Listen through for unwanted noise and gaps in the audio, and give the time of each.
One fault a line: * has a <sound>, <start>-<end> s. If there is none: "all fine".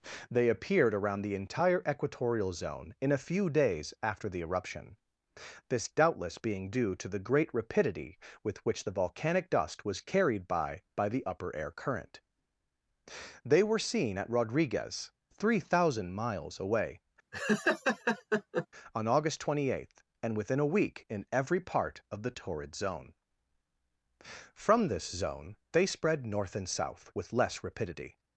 * has a laugh, 17.3-18.7 s